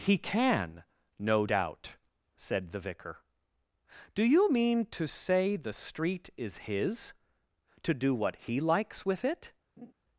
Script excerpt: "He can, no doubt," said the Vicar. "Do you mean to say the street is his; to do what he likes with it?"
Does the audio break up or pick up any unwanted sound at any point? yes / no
yes